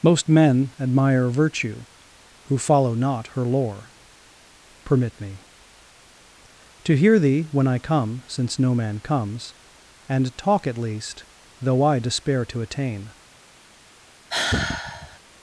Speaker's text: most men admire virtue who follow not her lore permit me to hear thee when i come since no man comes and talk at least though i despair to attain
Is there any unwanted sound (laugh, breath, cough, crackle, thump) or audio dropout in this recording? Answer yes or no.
yes